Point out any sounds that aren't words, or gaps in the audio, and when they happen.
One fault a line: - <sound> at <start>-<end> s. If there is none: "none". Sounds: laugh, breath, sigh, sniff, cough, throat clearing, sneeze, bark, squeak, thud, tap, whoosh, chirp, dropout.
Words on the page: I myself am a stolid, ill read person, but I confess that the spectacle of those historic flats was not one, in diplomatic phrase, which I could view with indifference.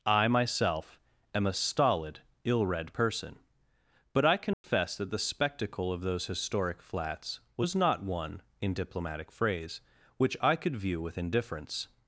- dropout at 4.5-4.6 s